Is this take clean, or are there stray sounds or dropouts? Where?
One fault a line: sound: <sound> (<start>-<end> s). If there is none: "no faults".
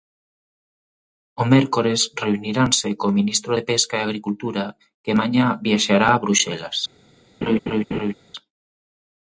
sound: laugh (7.4-8.1 s)